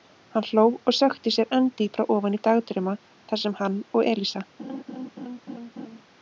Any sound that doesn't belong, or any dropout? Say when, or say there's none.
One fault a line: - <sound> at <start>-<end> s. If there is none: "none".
- laugh at 4.6-6.0 s